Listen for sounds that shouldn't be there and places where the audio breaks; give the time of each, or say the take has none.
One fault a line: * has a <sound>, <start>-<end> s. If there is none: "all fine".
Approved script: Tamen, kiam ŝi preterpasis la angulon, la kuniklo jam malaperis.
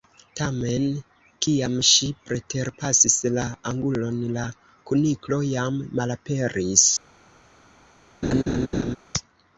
* has a laugh, 8.2-9.0 s